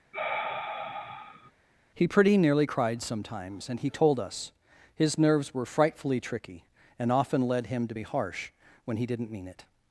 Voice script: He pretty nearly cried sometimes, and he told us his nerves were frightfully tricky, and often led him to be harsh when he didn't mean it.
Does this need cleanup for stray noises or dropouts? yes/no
yes